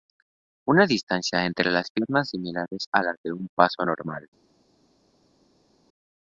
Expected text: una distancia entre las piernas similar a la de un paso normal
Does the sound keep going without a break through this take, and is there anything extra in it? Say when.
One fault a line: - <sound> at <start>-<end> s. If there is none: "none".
none